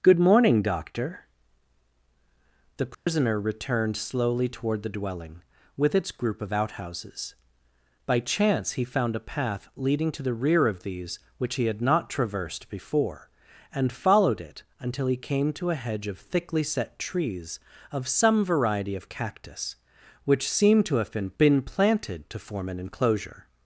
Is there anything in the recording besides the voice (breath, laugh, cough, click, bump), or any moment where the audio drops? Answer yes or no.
yes